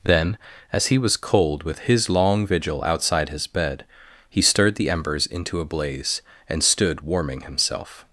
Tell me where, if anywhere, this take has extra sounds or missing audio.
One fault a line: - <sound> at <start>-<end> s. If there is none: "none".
none